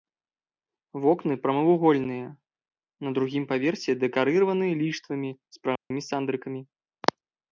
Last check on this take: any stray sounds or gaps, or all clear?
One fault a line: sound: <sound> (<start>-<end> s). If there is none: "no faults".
sound: dropout (5.8-5.9 s)